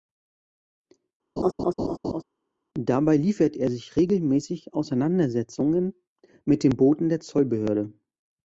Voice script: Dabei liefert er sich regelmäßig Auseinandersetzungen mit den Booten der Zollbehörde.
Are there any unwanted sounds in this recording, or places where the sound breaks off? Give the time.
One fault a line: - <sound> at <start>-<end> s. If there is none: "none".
- laugh at 1.4-2.2 s